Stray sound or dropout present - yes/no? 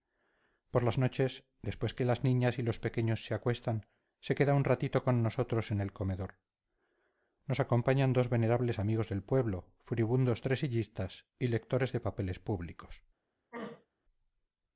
yes